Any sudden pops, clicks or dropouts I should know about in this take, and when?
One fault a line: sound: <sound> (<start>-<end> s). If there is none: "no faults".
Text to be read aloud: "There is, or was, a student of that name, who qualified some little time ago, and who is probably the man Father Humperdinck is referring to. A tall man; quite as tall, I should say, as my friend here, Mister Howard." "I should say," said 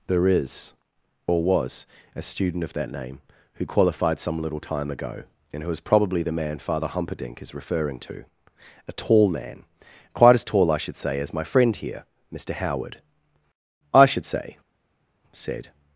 no faults